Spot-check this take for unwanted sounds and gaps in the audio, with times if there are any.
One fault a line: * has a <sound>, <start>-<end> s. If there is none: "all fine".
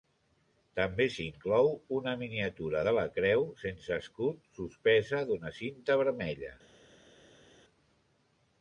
all fine